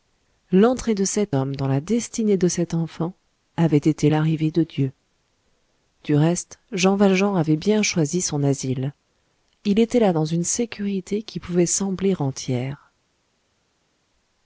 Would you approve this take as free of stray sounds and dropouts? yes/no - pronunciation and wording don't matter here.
yes